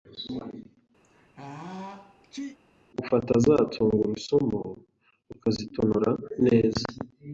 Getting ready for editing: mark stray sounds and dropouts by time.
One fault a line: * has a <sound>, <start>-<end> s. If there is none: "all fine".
* has a sneeze, 1.0-2.6 s